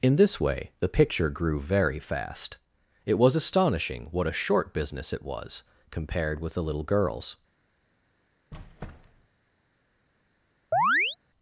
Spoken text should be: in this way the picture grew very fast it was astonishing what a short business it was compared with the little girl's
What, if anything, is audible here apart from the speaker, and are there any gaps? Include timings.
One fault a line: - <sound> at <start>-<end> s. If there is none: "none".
- squeak at 8.5-9.3 s
- chirp at 10.7-11.2 s